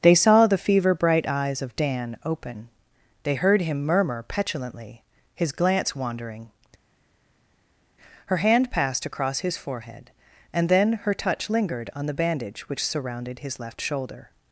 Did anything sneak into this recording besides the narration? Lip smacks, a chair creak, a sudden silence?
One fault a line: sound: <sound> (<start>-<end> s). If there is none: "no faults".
no faults